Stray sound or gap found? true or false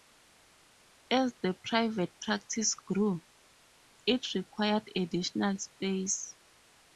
false